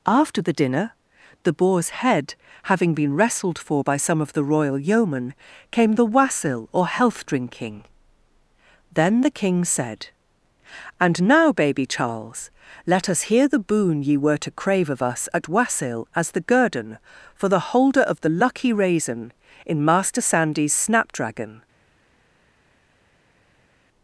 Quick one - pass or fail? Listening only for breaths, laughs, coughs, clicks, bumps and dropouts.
pass